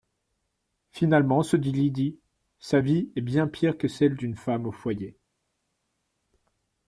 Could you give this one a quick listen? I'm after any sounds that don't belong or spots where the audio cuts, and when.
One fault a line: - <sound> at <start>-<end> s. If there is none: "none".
none